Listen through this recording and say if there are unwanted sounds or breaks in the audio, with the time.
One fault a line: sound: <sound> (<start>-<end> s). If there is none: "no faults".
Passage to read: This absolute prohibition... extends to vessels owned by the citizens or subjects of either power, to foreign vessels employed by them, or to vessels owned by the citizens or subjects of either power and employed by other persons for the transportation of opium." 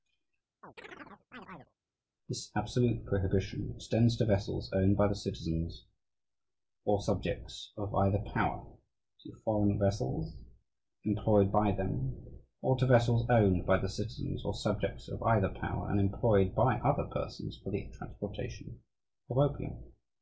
sound: chirp (0.6-1.7 s)